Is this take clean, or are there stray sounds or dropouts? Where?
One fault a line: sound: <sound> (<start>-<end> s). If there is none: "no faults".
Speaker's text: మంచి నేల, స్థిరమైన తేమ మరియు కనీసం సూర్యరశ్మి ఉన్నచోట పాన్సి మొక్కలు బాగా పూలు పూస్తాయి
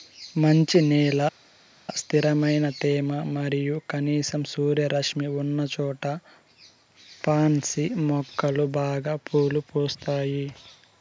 no faults